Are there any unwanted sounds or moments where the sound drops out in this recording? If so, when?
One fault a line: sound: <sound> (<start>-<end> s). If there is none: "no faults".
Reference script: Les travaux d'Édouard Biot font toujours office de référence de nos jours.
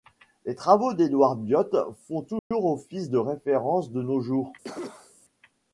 sound: dropout (2.4-2.5 s)
sound: cough (4.6-5.2 s)